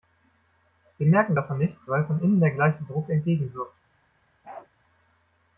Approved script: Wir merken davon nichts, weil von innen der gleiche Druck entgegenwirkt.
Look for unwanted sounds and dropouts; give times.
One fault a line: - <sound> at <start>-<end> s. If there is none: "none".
- bark at 4.4-4.7 s